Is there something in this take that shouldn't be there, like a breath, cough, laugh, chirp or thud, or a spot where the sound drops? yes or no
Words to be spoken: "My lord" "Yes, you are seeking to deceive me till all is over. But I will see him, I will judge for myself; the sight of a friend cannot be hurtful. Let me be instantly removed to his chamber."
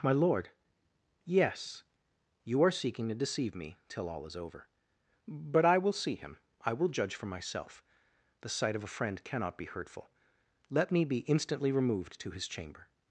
no